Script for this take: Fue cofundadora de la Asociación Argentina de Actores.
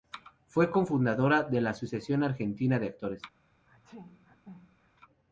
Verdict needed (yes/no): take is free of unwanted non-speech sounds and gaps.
no